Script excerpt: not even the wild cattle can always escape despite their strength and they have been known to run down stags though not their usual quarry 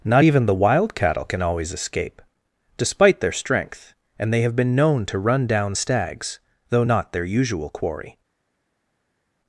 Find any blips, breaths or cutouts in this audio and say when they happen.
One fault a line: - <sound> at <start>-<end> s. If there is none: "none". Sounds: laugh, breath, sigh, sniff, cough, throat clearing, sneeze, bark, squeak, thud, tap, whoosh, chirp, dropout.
none